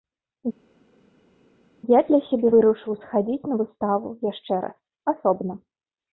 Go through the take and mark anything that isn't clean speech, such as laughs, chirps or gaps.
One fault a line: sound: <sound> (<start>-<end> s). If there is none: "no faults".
no faults